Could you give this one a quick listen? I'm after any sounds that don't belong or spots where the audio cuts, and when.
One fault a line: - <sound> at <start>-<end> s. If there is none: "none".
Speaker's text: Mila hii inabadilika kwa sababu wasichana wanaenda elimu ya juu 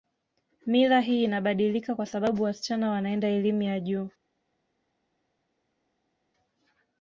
none